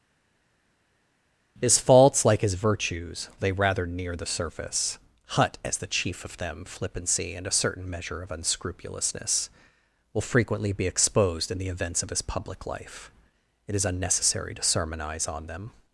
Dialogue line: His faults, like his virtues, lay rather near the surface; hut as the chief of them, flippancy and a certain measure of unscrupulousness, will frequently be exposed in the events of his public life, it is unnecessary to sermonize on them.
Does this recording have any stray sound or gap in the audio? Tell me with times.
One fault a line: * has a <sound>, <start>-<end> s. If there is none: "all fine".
all fine